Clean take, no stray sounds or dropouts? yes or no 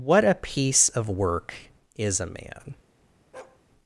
no